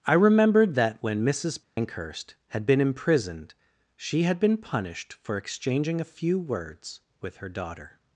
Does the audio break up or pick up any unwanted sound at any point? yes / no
yes